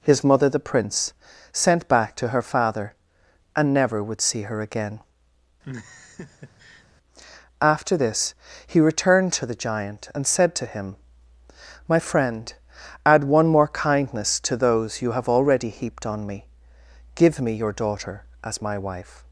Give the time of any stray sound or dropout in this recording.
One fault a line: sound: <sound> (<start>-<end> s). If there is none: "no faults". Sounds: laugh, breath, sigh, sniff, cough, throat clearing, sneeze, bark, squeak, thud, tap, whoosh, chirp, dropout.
sound: laugh (5.6-6.9 s)